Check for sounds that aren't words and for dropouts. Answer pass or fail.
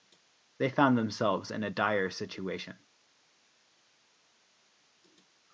pass